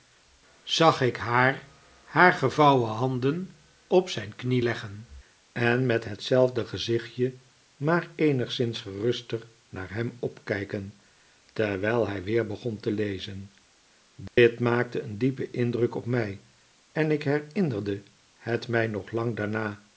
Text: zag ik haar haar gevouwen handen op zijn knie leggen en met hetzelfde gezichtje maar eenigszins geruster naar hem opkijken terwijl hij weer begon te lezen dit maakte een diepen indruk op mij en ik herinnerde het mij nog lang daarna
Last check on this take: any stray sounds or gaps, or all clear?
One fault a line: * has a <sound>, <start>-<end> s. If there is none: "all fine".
* has a dropout, 14.3-14.4 s